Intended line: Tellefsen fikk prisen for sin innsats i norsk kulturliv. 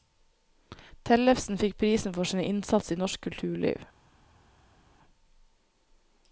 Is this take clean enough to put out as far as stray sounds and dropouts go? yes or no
yes